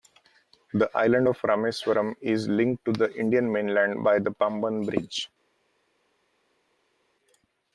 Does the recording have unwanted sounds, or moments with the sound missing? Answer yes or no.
no